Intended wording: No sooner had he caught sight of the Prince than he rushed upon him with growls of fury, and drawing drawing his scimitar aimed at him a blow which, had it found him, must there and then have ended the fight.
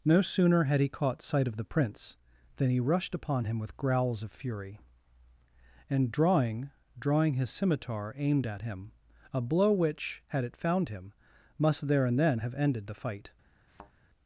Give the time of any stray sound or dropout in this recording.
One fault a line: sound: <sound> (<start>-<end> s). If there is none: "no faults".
sound: thud (13.7-13.9 s)